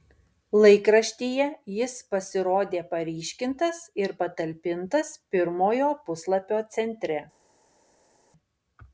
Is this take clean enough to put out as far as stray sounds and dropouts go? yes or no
yes